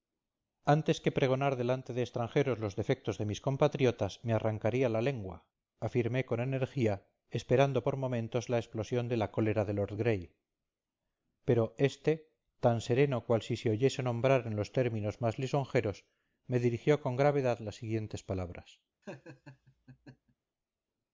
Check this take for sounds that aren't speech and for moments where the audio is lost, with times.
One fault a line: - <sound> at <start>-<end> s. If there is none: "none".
- laugh at 19.0-20.4 s